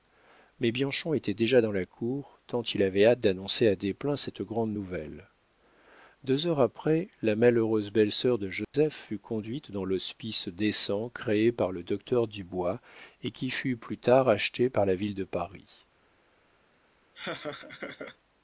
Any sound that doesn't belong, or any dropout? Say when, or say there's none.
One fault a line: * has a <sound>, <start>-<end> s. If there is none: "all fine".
* has a dropout, 8.6-8.7 s
* has a laugh, 17.1-18.2 s